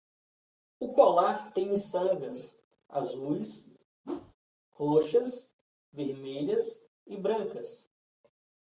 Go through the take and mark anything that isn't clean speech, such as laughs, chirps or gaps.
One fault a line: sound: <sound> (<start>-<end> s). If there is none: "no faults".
sound: whoosh (4.0-4.4 s)